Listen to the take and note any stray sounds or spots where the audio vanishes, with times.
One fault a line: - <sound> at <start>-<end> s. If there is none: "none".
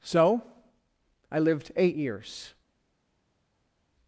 none